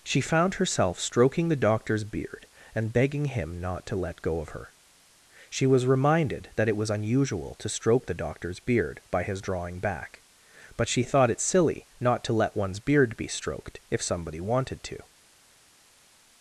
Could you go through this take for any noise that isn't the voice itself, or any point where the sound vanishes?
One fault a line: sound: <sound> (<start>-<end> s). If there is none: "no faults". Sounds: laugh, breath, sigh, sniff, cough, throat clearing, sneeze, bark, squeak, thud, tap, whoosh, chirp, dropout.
no faults